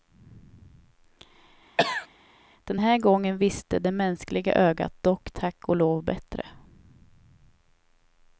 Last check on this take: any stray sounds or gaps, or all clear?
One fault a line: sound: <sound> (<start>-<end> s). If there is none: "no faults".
sound: cough (1.8-2.1 s)